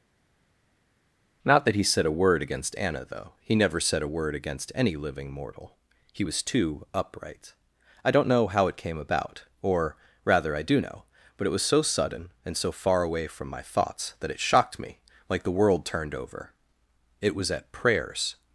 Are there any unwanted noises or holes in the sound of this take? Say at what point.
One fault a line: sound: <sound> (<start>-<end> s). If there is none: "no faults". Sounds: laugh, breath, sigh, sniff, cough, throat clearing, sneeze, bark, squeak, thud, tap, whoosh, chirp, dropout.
no faults